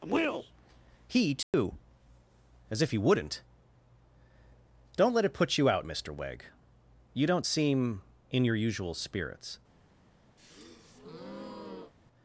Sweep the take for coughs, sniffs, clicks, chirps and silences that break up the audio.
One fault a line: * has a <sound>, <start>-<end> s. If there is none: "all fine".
* has a dropout, 1.4-1.5 s
* has a breath, 10.4-11.9 s